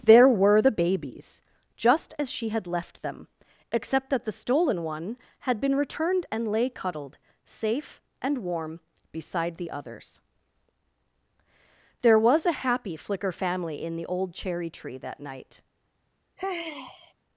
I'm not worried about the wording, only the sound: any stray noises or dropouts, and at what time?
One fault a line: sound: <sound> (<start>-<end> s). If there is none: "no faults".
sound: sigh (16.4-17.1 s)